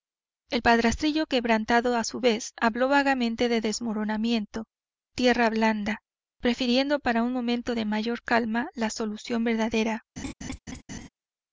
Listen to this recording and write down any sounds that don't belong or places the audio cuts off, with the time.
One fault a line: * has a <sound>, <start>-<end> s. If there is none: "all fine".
* has a laugh, 10.2-11.1 s